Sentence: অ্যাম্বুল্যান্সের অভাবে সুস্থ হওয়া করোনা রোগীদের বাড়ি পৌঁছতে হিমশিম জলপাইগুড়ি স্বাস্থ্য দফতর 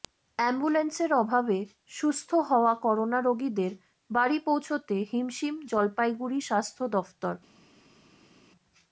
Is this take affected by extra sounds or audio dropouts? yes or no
no